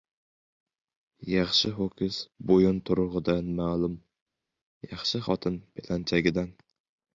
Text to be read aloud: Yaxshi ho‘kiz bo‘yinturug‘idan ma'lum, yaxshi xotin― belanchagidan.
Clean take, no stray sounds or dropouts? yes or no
yes